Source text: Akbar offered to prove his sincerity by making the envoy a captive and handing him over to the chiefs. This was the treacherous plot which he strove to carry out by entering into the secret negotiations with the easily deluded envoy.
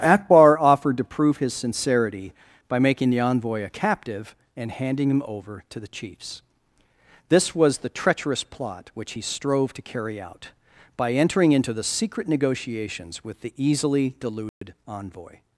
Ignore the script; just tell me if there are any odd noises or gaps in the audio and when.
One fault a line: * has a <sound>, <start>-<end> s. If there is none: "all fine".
* has a dropout, 14.5-14.6 s